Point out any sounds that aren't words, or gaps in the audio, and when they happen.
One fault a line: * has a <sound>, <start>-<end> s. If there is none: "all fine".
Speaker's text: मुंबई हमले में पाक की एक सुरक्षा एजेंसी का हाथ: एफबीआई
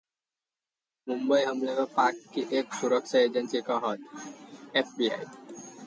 all fine